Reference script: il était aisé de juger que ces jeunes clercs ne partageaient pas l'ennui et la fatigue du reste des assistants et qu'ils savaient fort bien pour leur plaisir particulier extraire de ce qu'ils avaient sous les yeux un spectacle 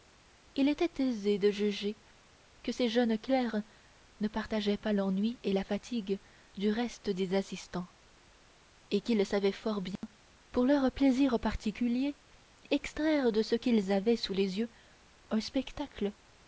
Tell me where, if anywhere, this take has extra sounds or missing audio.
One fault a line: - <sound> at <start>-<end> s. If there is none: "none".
- dropout at 10.0-10.0 s